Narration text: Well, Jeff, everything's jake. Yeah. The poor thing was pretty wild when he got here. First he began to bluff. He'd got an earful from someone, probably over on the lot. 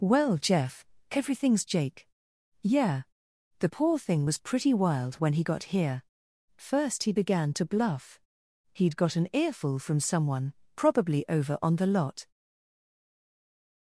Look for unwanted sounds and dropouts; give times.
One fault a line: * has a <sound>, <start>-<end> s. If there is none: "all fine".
all fine